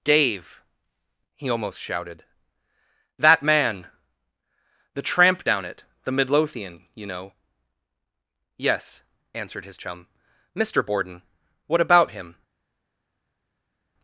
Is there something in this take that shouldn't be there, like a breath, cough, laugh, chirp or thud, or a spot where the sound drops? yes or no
no